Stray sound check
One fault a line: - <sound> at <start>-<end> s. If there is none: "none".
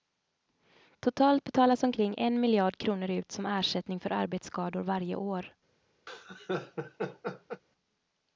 - laugh at 6.1-7.6 s